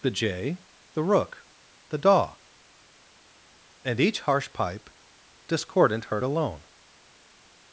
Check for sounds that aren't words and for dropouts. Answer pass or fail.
pass